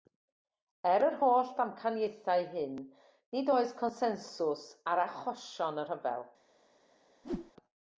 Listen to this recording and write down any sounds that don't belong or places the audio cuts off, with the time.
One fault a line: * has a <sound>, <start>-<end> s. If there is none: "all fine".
* has a whoosh, 7.2-7.5 s